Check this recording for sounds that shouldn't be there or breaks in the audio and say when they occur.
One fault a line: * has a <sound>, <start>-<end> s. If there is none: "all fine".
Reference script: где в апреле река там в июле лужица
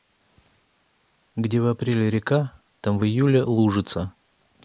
all fine